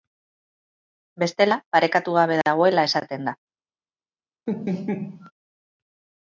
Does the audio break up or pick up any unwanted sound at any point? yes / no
yes